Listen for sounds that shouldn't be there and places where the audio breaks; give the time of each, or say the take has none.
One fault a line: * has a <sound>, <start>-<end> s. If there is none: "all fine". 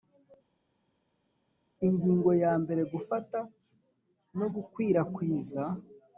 all fine